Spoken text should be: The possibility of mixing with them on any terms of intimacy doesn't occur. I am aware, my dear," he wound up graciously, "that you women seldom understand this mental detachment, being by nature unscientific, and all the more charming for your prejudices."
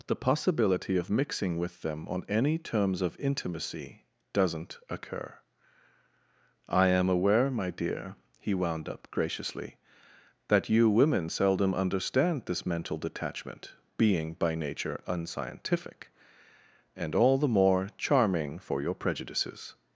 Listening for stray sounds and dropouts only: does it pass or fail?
pass